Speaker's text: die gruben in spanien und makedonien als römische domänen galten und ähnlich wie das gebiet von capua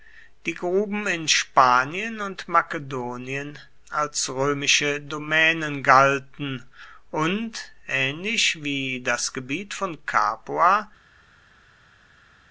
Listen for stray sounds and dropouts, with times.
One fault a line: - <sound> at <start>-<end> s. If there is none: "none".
none